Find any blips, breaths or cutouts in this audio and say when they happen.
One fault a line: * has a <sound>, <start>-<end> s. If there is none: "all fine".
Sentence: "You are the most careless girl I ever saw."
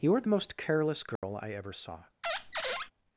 * has a dropout, 1.2-1.2 s
* has a squeak, 2.2-2.9 s